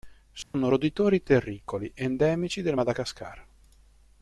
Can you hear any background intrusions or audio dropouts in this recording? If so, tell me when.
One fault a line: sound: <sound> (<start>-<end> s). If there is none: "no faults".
sound: dropout (0.4-0.5 s)